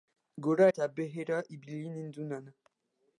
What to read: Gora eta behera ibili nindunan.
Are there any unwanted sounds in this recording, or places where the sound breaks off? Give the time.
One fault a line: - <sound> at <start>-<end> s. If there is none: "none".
none